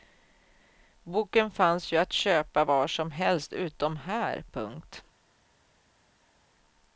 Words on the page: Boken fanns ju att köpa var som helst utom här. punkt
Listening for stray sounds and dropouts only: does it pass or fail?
pass